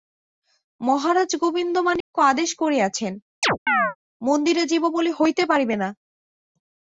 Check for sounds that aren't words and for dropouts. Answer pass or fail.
fail